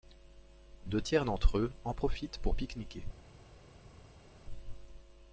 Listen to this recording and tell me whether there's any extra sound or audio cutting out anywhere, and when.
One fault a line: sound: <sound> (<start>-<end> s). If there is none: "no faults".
no faults